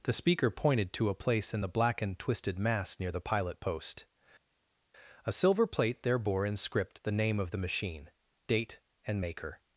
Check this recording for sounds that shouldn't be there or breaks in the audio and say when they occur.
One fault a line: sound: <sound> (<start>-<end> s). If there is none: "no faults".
no faults